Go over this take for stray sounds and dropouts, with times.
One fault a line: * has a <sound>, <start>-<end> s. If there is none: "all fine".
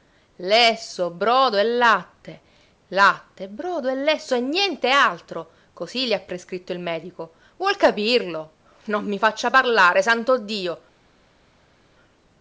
all fine